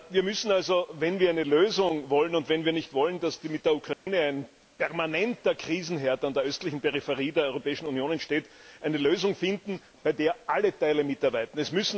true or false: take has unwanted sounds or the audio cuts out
true